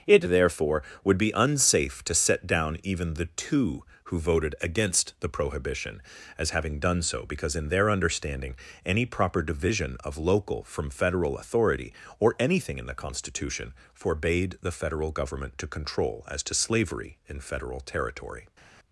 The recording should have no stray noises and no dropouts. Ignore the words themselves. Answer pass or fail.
pass